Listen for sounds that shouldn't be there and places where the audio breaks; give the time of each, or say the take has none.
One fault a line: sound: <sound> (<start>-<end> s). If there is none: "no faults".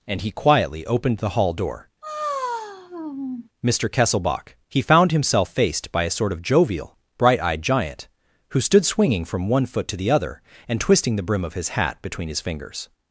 sound: sigh (2.0-3.5 s)